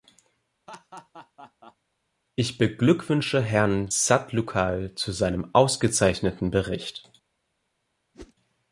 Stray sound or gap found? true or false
true